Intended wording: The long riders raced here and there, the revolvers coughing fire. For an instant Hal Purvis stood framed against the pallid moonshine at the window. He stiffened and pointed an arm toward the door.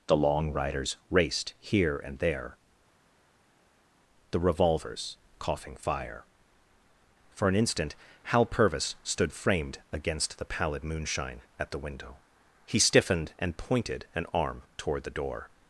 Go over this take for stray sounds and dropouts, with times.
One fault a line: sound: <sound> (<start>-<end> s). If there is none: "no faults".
no faults